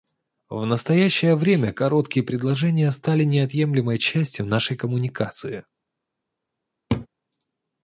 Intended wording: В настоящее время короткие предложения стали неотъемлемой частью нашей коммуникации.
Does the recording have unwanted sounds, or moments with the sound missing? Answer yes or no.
yes